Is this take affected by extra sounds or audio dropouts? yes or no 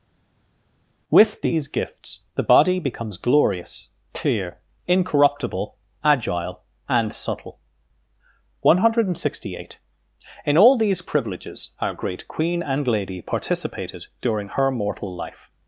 no